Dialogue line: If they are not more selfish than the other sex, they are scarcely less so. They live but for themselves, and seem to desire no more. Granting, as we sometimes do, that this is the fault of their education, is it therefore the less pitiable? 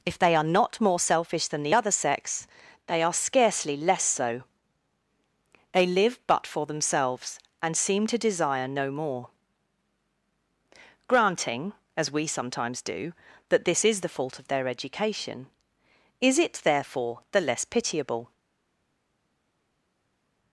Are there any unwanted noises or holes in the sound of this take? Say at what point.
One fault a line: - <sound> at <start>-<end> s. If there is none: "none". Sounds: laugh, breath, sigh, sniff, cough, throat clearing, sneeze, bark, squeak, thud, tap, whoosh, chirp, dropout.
none